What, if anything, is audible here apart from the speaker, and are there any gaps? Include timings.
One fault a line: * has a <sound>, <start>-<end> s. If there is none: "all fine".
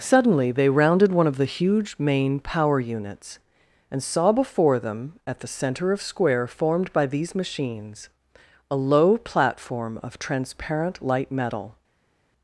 all fine